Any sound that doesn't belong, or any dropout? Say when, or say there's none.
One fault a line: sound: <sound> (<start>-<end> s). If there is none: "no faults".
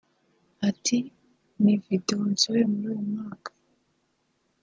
no faults